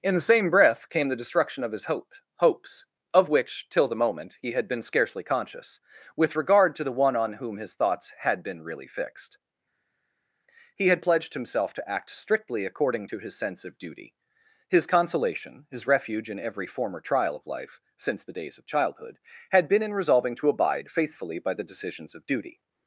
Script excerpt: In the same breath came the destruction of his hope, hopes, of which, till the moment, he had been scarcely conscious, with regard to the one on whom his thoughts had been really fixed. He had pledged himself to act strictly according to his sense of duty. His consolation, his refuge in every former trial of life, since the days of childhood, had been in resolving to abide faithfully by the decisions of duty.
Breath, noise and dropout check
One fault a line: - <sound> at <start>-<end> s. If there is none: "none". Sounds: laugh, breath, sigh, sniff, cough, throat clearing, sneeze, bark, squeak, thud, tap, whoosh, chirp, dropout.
none